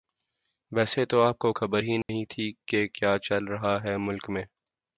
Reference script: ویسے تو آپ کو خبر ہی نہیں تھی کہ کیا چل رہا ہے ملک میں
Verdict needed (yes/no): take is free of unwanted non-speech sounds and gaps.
no